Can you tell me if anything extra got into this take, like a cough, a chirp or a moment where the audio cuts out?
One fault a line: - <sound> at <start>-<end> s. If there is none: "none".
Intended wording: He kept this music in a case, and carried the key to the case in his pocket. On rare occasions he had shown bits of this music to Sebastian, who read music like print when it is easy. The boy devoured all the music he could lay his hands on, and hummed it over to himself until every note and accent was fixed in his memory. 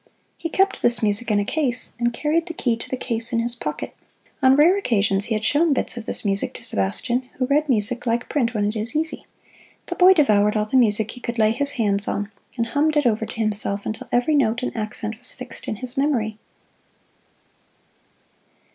none